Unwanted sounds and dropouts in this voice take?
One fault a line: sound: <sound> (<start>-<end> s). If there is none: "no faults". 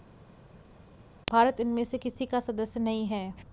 no faults